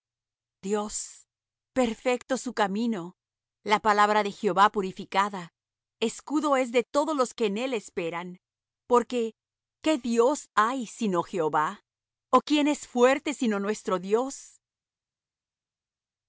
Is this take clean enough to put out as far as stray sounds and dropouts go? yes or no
yes